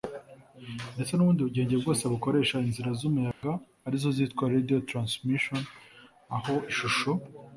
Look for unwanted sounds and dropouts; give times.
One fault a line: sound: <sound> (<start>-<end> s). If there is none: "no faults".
sound: dropout (3.3-3.4 s)